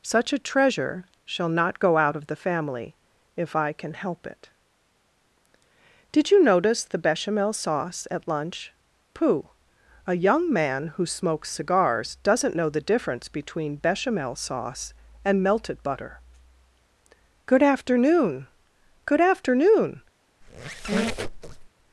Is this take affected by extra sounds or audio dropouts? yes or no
yes